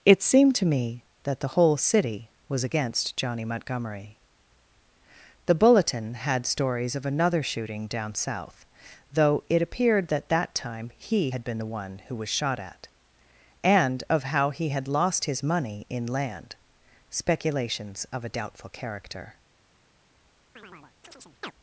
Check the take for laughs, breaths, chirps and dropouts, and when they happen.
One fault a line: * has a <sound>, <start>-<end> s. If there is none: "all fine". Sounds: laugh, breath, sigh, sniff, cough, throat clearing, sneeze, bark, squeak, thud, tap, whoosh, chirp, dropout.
* has a chirp, 20.6-21.5 s